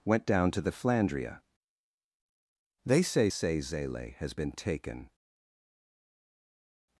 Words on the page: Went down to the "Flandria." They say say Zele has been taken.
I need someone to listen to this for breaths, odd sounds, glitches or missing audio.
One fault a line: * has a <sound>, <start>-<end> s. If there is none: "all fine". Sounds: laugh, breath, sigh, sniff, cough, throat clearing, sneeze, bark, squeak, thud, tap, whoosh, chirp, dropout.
all fine